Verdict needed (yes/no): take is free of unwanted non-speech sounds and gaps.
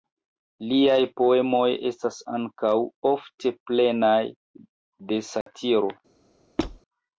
no